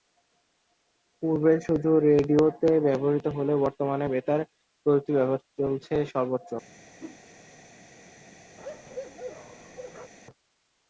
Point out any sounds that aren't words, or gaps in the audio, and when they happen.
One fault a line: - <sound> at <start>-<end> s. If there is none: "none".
- whoosh at 7.0-7.2 s
- bark at 8.6-10.1 s